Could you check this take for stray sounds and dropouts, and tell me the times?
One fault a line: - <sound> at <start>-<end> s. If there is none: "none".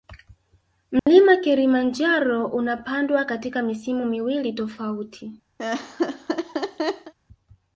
- dropout at 1.0-1.1 s
- laugh at 5.6-7.1 s